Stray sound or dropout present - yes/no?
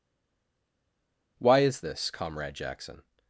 no